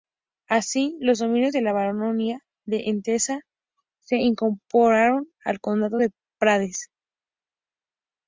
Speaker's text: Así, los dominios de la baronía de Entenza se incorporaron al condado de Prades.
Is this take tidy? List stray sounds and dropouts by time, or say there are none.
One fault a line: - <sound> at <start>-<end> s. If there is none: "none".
none